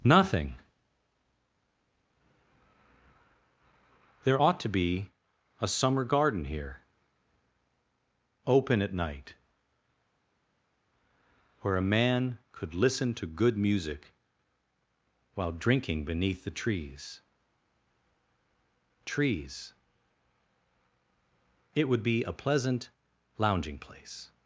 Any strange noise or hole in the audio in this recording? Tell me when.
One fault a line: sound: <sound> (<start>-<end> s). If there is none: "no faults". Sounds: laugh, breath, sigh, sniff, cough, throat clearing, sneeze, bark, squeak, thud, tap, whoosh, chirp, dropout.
no faults